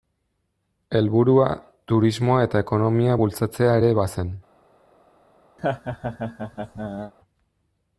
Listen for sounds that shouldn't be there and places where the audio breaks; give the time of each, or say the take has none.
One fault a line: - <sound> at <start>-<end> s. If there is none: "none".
- laugh at 5.6-7.1 s